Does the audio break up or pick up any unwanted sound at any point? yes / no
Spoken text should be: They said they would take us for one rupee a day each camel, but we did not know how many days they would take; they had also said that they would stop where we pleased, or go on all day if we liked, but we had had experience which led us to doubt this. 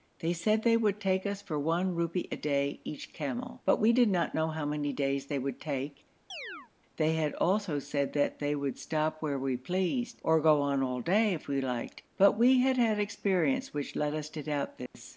yes